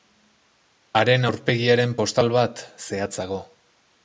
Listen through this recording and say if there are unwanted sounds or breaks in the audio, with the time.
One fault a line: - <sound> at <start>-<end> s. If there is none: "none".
none